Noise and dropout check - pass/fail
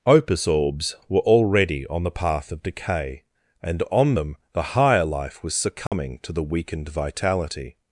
fail